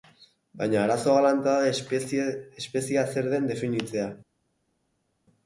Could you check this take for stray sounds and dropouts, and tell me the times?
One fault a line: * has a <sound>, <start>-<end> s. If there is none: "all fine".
all fine